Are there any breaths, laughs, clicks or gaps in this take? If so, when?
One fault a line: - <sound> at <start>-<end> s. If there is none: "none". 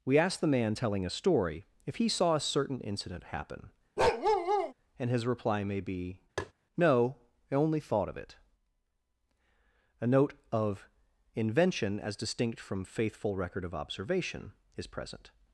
- bark at 4.0-4.7 s
- tap at 6.4-6.5 s